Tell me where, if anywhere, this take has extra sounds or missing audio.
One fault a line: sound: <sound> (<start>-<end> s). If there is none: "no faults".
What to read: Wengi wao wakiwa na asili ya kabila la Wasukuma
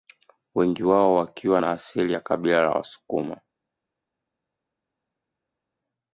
no faults